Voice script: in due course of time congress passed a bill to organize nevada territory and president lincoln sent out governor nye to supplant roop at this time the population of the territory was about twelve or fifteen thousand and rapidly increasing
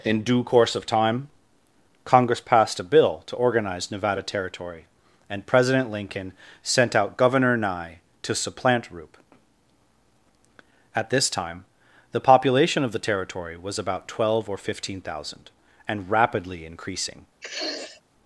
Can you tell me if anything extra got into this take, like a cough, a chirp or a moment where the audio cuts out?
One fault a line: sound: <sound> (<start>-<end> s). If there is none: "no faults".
sound: sniff (17.4-18.0 s)